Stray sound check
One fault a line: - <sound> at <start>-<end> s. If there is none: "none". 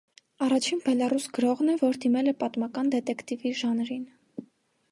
none